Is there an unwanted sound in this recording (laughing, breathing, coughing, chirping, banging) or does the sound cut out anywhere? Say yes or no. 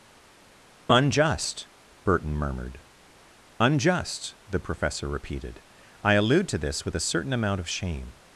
no